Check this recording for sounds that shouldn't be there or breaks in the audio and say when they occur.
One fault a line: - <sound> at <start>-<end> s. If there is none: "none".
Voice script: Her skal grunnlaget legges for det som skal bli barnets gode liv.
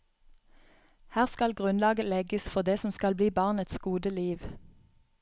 none